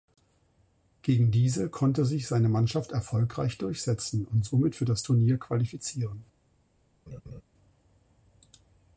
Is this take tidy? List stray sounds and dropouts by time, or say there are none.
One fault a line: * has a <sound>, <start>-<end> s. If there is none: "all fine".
* has a laugh, 7.1-7.4 s